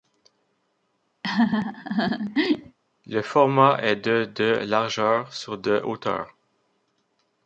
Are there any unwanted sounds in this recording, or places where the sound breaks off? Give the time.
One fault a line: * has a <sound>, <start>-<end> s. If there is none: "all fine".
* has a laugh, 1.2-2.8 s